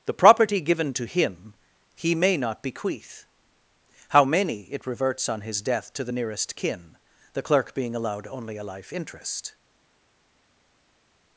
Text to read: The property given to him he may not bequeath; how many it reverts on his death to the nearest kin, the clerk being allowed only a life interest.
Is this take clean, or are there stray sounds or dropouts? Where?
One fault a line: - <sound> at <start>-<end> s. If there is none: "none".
none